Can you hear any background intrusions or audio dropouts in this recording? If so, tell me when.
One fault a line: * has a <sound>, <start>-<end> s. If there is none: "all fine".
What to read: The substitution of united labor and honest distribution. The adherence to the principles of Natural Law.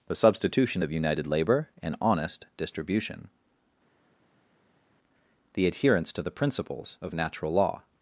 all fine